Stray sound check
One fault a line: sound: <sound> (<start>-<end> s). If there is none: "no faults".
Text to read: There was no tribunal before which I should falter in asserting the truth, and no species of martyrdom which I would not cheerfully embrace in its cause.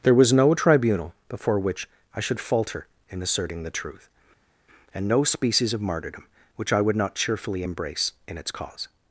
no faults